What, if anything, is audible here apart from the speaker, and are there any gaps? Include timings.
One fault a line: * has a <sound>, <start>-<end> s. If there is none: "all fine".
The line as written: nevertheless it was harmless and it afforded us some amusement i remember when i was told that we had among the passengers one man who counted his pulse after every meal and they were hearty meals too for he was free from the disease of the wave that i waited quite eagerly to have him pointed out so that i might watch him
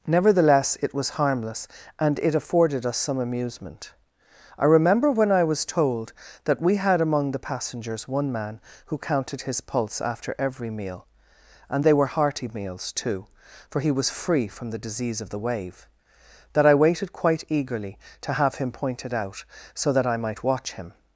all fine